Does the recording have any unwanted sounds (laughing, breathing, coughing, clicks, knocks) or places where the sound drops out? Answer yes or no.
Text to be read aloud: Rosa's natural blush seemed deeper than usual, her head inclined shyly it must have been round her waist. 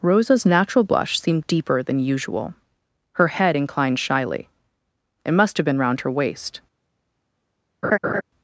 yes